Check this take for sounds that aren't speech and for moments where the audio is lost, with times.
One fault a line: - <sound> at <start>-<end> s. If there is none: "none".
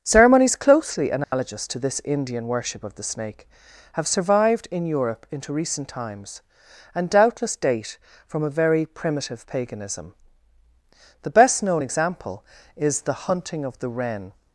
- dropout at 1.2-1.3 s